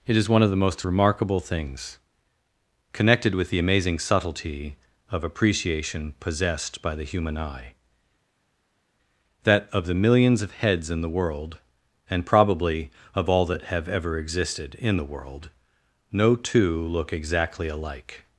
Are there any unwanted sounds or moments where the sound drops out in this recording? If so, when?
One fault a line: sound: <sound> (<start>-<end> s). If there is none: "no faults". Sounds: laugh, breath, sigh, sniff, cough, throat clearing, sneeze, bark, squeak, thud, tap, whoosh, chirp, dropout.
no faults